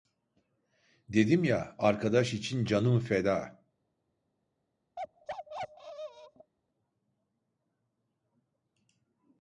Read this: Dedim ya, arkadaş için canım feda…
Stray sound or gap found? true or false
true